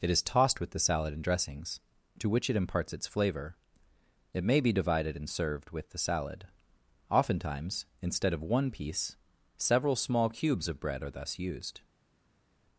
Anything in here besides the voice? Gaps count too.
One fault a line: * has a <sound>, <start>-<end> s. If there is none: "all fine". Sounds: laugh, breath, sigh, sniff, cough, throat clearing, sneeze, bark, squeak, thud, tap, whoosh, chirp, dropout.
all fine